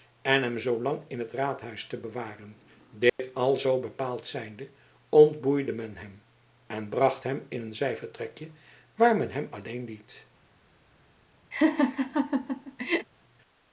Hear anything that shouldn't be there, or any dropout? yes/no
yes